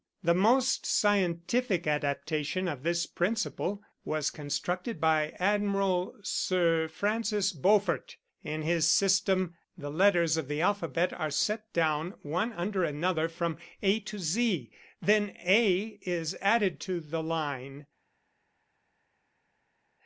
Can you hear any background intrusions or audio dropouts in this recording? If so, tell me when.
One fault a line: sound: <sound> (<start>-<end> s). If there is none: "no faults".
no faults